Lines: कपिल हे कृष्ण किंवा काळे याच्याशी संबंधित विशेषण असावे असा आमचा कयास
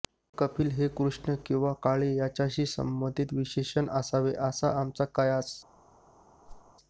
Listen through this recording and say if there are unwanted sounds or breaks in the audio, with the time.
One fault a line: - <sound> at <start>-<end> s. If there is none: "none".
- whoosh at 6.5-6.7 s